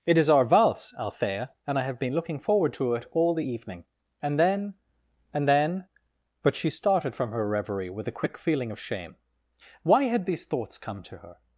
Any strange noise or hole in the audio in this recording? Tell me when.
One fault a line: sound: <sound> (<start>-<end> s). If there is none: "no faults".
no faults